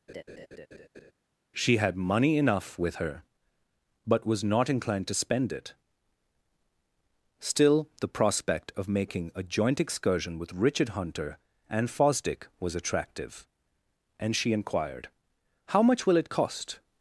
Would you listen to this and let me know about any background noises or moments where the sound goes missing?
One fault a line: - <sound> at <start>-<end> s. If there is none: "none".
- laugh at 0.1-1.1 s